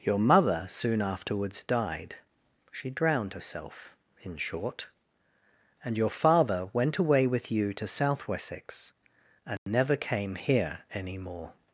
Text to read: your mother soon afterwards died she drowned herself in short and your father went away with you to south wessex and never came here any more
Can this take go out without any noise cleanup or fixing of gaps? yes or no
no